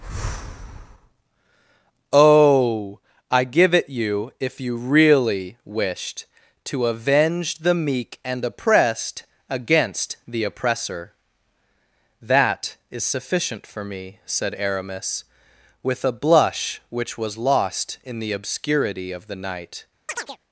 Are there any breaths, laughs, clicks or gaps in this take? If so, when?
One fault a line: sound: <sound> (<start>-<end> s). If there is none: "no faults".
sound: chirp (20.1-20.4 s)